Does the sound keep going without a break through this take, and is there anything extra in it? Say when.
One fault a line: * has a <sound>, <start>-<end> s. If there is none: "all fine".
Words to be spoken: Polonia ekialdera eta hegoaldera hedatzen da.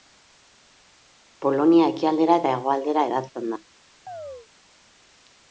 * has a chirp, 4.1-4.5 s